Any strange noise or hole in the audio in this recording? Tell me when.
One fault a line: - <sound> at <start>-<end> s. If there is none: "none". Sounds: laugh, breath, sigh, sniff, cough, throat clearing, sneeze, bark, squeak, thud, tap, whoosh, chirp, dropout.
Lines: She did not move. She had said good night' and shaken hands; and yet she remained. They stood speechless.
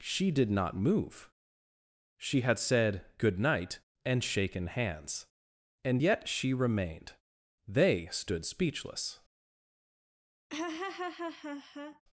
- laugh at 10.5-12.0 s